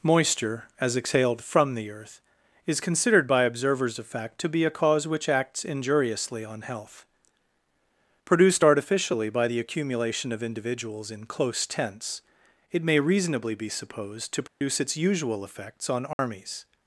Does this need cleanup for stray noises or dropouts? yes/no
yes